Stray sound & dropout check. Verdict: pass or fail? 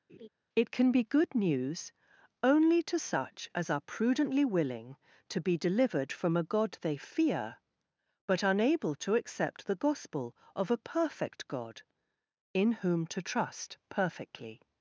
fail